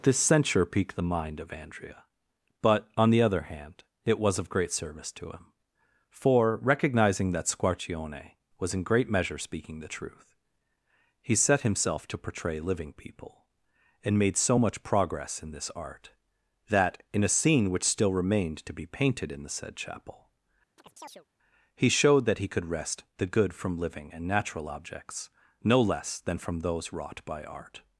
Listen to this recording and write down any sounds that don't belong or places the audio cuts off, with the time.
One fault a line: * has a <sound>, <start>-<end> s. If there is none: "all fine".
* has a chirp, 20.8-21.3 s